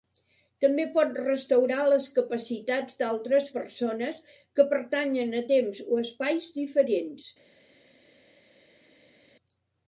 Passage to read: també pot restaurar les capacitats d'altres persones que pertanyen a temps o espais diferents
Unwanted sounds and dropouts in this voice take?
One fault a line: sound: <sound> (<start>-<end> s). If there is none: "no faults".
no faults